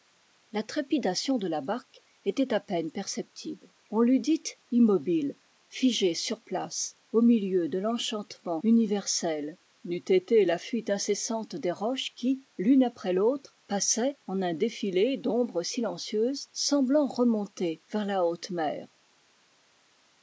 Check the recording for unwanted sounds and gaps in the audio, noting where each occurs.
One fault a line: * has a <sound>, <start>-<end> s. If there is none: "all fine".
all fine